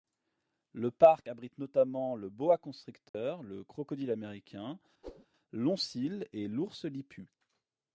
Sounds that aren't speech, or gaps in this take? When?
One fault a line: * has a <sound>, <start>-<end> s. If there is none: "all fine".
* has a dropout, 3.1-3.1 s
* has a whoosh, 5.0-5.3 s